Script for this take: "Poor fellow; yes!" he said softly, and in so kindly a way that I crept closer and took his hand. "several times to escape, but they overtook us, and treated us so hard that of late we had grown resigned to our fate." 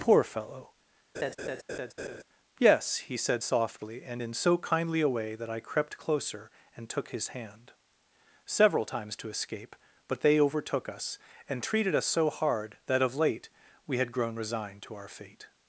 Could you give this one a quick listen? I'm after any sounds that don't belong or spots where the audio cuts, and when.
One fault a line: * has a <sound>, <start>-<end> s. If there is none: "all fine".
* has a laugh, 1.1-2.2 s